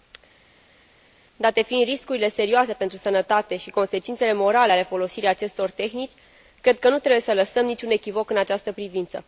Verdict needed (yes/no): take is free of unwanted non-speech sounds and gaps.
yes